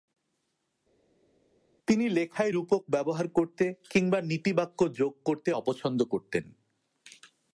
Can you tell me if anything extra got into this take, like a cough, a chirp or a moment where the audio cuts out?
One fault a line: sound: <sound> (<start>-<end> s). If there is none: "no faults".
no faults